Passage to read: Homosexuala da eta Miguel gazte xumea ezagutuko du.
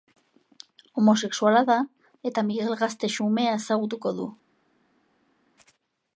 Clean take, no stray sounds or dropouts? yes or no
yes